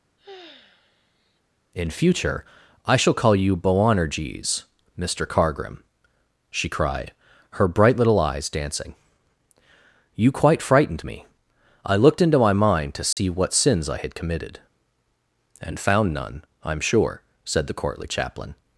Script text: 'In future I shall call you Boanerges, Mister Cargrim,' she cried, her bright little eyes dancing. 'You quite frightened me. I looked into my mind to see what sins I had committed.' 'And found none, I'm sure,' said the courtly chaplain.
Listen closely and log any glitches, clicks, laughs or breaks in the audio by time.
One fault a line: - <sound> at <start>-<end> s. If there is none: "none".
- sigh at 0.2-1.4 s
- dropout at 13.1-13.2 s